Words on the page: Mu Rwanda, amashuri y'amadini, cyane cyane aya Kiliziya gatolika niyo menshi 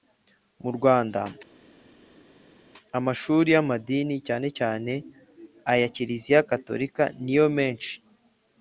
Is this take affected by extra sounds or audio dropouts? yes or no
no